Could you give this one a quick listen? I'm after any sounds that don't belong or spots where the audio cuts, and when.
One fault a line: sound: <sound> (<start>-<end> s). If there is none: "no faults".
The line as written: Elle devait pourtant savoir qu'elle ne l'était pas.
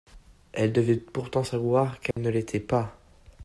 sound: dropout (2.1-2.2 s)